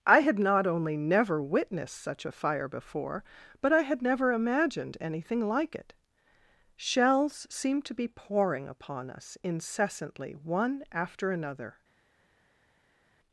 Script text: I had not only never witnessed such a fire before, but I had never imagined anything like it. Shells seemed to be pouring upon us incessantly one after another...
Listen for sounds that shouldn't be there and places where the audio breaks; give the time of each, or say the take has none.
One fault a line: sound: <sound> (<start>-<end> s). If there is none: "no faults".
no faults